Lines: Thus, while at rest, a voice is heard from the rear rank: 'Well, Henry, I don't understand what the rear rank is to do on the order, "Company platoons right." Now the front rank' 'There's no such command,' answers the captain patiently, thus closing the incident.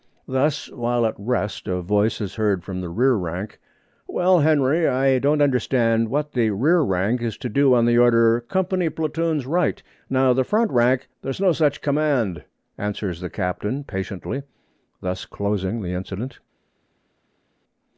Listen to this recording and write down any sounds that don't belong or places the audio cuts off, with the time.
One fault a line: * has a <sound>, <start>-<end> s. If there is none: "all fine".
all fine